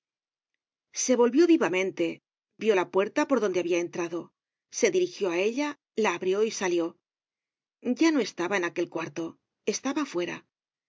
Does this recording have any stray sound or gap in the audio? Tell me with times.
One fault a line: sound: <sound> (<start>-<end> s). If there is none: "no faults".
no faults